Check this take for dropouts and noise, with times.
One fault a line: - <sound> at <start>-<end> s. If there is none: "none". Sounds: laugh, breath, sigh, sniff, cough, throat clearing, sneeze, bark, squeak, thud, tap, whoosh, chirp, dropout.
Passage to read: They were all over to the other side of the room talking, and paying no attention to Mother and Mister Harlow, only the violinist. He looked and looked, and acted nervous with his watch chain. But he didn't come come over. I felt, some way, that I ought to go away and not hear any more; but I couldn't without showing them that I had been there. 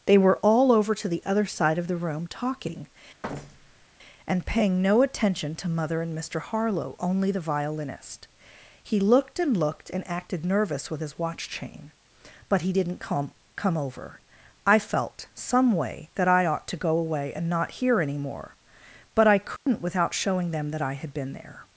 - thud at 3.2-3.9 s
- dropout at 19.6-19.7 s